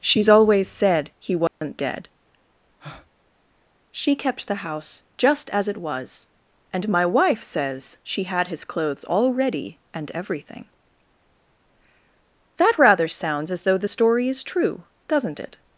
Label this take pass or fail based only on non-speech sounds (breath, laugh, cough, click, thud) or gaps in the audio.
fail